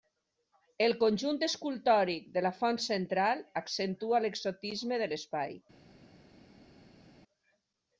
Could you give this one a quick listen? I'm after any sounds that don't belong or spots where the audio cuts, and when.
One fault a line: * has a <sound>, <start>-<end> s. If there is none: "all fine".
all fine